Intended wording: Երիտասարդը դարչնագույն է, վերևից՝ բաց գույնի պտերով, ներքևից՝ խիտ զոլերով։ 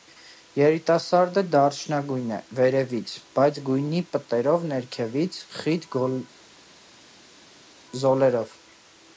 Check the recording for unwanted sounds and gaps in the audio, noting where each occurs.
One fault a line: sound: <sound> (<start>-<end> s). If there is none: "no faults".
no faults